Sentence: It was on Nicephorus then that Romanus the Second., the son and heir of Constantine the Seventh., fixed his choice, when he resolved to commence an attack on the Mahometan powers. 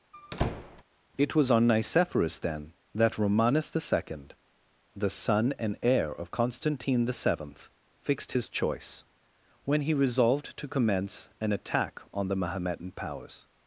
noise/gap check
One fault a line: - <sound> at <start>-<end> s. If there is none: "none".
- squeak at 0.1-0.8 s